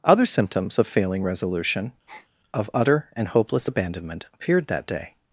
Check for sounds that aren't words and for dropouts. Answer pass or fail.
fail